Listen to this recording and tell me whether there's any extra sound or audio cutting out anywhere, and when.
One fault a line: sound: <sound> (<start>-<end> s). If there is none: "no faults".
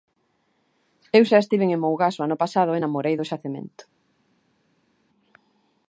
no faults